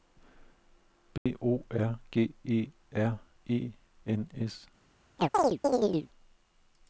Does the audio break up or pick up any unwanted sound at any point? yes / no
yes